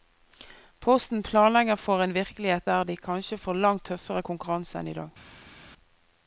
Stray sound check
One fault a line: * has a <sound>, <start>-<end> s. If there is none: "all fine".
all fine